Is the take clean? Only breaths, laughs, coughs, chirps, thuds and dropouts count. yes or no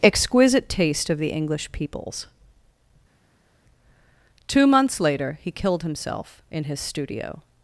yes